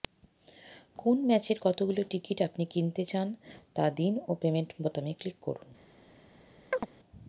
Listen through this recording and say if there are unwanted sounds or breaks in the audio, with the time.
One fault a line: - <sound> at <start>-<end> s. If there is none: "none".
- chirp at 6.7-6.9 s